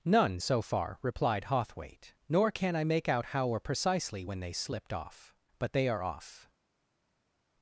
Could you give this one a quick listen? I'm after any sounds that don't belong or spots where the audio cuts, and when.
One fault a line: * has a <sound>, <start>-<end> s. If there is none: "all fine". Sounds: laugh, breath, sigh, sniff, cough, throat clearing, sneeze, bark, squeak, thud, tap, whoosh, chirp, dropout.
all fine